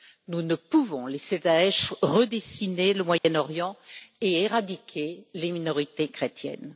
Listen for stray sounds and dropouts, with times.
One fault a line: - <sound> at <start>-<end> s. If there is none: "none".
- dropout at 3.2-3.2 s